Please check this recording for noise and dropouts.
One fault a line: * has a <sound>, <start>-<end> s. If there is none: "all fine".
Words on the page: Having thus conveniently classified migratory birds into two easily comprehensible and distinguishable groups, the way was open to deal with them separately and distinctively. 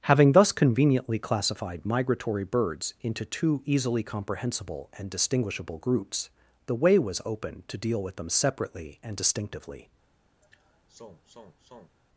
* has a sigh, 10.4-12.0 s